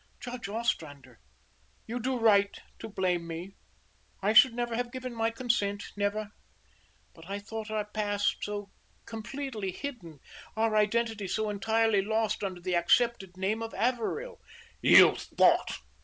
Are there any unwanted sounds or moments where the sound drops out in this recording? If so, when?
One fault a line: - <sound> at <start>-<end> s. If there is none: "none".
none